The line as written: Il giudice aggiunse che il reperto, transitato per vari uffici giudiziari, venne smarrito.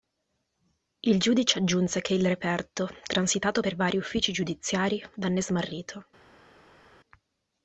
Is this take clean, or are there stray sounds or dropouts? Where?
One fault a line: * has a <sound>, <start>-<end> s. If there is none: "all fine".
all fine